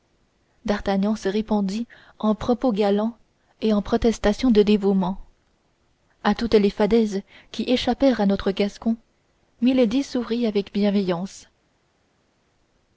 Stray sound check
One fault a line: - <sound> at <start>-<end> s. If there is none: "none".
none